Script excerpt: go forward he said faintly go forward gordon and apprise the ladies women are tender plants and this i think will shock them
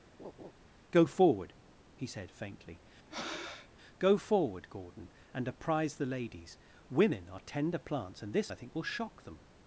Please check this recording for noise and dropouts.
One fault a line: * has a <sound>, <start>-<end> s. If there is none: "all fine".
* has a laugh, 0.2-0.5 s
* has a breath, 3.1-3.7 s